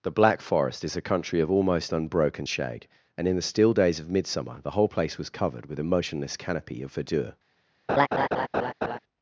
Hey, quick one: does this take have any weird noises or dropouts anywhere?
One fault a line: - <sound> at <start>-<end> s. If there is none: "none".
- laugh at 7.9-9.0 s